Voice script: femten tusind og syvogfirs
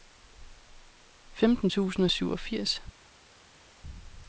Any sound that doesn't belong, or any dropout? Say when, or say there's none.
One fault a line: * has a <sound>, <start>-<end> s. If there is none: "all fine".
all fine